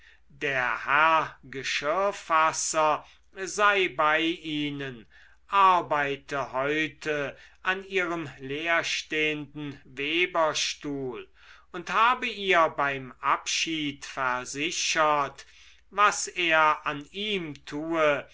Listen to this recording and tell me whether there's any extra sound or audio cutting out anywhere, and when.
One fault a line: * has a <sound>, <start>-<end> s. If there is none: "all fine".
all fine